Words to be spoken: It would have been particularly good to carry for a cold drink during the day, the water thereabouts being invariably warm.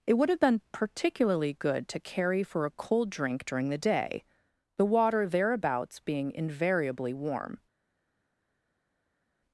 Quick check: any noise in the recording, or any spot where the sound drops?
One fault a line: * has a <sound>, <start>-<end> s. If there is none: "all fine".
all fine